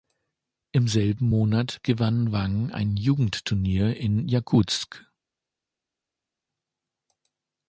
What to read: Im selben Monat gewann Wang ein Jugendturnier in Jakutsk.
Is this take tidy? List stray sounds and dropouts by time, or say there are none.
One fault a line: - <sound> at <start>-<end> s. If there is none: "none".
none